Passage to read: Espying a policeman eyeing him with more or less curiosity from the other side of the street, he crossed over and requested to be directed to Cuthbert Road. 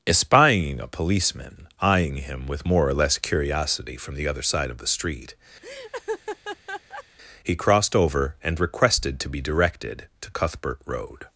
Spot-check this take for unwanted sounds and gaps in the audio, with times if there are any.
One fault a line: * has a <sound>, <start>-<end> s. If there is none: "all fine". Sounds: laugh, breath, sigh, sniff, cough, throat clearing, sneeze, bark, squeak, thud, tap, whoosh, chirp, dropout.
* has a laugh, 5.6-7.0 s